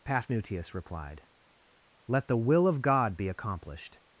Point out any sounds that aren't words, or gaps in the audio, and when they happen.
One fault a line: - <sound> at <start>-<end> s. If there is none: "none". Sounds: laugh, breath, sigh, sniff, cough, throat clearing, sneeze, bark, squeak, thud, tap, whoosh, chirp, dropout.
none